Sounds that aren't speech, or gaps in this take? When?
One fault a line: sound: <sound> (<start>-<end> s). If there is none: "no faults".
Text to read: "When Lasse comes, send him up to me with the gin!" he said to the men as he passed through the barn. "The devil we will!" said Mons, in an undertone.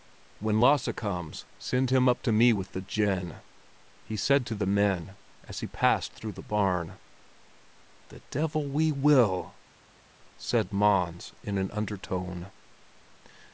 no faults